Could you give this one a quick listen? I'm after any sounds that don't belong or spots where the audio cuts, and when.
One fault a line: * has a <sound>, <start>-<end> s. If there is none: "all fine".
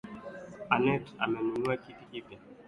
all fine